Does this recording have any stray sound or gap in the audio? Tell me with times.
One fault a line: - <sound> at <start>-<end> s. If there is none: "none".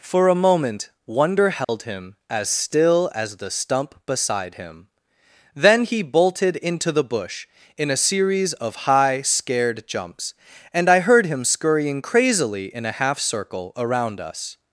- dropout at 1.6-1.7 s